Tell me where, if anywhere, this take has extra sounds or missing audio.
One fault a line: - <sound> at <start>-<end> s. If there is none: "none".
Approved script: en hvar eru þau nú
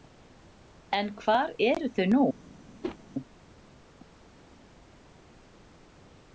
- whoosh at 2.8-3.0 s